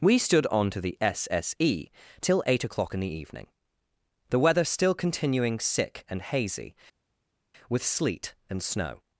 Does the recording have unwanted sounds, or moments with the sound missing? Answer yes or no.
no